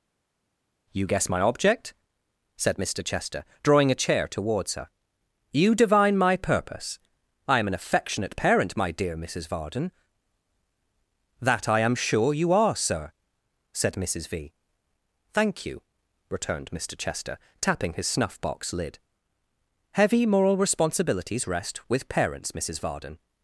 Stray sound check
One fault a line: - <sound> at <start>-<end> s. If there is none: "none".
none